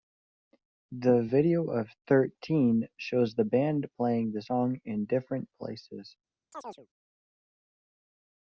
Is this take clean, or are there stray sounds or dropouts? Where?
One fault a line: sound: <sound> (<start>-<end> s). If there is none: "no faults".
sound: chirp (6.5-6.9 s)